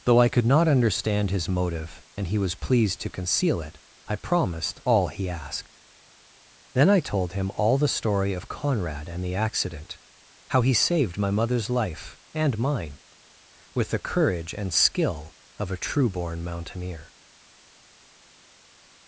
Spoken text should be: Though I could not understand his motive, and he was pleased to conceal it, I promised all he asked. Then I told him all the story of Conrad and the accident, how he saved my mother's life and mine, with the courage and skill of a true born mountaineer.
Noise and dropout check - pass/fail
pass